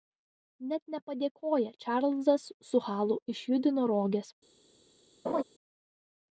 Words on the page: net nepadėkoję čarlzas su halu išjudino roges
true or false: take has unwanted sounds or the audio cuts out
true